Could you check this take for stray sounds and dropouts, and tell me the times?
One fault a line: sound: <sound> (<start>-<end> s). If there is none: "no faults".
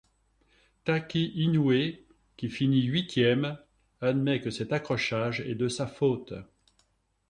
no faults